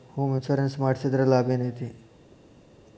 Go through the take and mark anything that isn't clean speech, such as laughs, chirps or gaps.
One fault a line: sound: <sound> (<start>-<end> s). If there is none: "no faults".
no faults